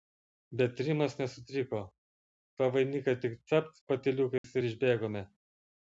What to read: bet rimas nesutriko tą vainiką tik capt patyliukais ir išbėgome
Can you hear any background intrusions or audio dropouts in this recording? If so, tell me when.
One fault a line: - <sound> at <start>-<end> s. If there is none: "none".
- dropout at 4.4-4.4 s